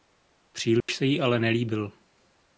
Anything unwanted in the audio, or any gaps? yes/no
yes